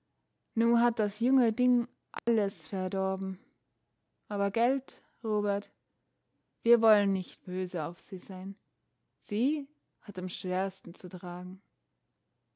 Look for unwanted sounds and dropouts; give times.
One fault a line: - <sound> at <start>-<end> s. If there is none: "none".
- dropout at 2.2-2.3 s